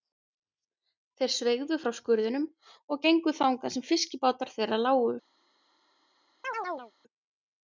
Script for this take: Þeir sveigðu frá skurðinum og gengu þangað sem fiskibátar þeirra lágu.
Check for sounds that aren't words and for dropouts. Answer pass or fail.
fail